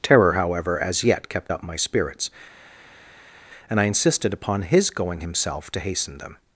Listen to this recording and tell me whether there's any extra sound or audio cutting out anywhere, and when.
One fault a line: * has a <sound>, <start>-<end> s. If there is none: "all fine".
all fine